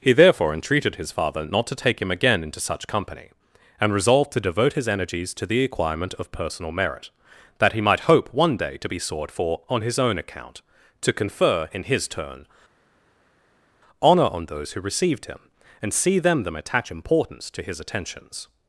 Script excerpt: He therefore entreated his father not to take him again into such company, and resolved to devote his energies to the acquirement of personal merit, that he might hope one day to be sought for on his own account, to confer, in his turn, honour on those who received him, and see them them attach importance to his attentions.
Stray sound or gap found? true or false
false